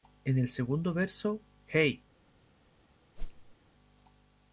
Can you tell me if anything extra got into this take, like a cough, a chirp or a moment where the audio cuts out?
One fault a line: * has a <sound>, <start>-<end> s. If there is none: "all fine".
* has a whoosh, 3.2-3.6 s